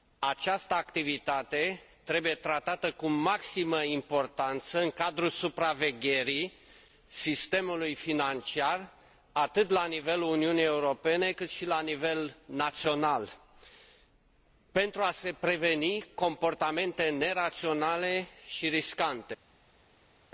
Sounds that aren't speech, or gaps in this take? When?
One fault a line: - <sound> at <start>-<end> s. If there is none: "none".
none